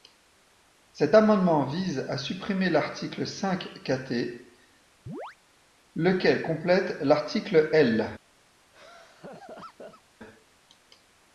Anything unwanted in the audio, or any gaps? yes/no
yes